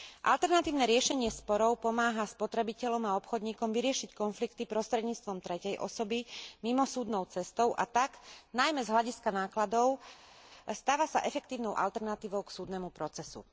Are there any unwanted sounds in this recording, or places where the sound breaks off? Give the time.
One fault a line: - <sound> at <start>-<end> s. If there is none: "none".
none